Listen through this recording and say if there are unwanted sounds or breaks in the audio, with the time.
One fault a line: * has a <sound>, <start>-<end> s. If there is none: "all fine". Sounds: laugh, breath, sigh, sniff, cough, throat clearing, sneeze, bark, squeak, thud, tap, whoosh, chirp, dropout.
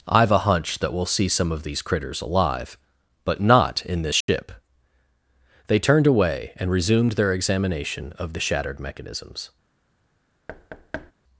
* has a dropout, 4.2-4.3 s
* has a thud, 10.5-11.1 s